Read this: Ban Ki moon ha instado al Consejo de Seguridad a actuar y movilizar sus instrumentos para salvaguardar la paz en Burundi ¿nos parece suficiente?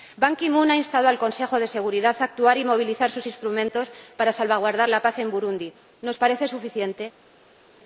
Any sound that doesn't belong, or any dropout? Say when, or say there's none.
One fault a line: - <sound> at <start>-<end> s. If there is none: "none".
none